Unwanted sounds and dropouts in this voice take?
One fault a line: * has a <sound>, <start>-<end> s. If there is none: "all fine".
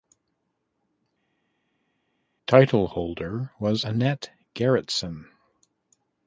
all fine